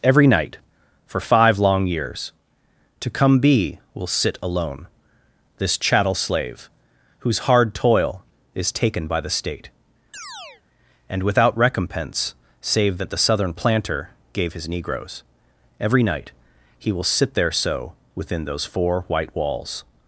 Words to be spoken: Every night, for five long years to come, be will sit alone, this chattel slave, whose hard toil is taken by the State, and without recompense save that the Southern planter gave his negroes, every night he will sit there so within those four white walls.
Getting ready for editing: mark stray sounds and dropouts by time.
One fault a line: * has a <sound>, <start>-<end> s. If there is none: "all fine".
* has a chirp, 10.1-10.6 s